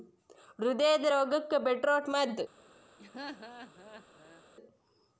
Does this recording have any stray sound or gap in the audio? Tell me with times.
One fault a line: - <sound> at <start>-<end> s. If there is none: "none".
- laugh at 3.0-4.4 s